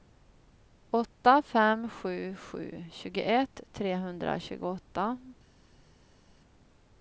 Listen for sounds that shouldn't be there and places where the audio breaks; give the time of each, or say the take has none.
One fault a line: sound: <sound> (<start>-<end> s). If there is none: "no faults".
no faults